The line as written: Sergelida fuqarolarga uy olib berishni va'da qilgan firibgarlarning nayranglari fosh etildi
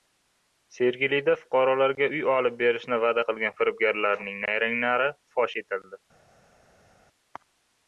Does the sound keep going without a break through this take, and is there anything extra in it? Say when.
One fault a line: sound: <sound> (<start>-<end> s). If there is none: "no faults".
no faults